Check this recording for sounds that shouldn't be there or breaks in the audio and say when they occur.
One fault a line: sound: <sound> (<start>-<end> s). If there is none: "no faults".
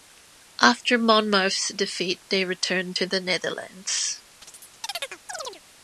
sound: chirp (4.4-5.6 s)